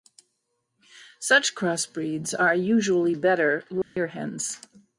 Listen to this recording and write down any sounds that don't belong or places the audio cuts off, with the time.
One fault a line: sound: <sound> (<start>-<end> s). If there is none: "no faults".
sound: dropout (3.8-4.0 s)